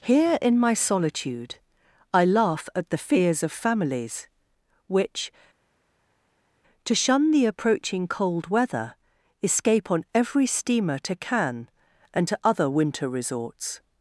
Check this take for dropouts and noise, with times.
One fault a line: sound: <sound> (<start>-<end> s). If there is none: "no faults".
no faults